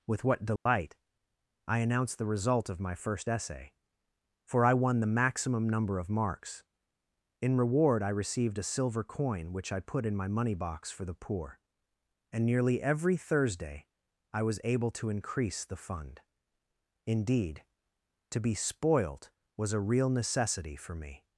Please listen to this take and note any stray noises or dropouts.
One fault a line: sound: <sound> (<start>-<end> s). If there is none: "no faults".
sound: dropout (0.6-0.7 s)